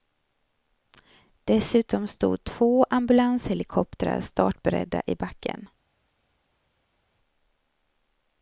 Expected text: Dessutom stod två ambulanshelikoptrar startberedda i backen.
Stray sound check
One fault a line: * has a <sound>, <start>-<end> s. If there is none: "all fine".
all fine